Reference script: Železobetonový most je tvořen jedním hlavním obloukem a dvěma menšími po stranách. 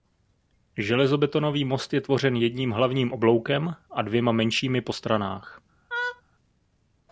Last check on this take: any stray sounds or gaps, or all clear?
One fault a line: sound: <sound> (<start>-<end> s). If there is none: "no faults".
sound: laugh (5.9-6.2 s)